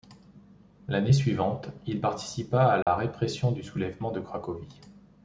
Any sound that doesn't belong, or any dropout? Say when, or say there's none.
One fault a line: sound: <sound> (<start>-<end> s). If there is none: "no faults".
sound: dropout (2.8-2.9 s)